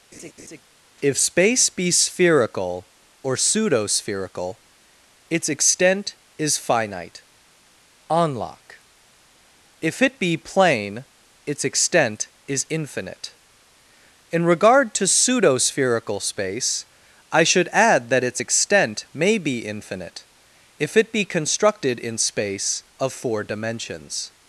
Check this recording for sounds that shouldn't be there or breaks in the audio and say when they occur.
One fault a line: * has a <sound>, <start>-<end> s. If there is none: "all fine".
* has a laugh, 0.1-0.6 s